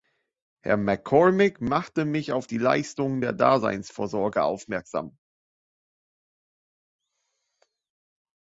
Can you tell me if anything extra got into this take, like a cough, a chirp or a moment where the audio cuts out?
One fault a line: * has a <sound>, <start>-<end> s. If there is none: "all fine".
all fine